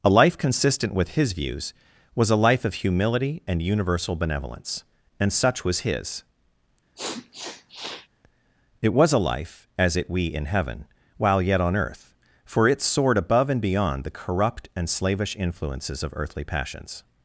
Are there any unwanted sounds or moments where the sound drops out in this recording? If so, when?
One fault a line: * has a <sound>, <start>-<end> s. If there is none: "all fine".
* has a sniff, 7.0-8.1 s